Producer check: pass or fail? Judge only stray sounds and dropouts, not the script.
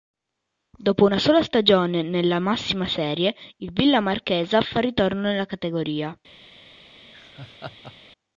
fail